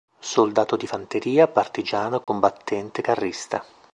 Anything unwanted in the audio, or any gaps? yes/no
yes